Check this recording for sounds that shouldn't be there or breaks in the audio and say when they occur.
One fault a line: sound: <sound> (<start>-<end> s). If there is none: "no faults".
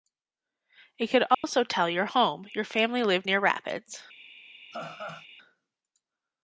sound: dropout (1.3-1.4 s)
sound: laugh (4.7-5.3 s)